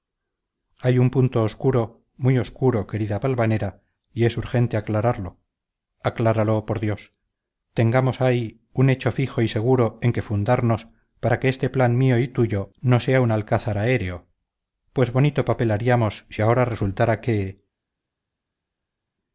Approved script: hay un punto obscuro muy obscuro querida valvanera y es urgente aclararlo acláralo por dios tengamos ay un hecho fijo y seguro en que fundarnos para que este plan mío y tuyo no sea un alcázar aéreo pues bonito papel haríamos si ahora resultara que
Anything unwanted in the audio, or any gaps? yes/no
no